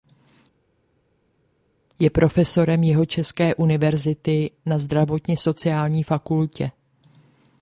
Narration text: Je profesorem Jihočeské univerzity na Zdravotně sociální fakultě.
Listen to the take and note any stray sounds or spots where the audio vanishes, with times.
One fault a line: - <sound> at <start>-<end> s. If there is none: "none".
none